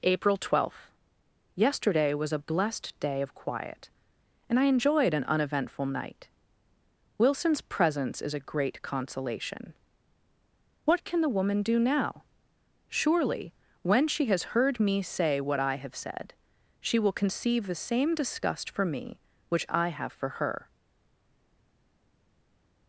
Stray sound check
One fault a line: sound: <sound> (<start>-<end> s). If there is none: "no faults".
no faults